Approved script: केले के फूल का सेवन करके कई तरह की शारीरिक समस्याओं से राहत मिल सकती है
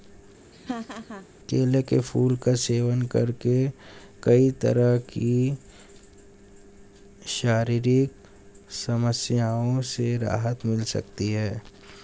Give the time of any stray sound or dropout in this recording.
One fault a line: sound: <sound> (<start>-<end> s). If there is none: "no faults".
sound: laugh (0.5-1.3 s)